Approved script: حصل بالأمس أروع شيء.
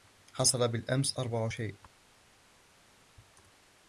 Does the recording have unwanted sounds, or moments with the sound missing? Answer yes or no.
no